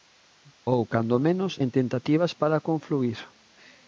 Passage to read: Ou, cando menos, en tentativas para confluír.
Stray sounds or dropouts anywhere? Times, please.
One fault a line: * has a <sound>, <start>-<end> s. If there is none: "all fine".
all fine